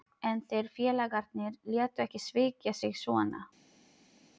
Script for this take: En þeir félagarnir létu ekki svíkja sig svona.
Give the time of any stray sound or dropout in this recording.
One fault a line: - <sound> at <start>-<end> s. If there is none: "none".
none